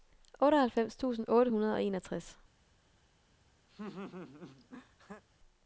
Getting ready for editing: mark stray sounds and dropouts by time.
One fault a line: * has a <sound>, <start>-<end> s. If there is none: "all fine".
* has a laugh, 3.7-5.2 s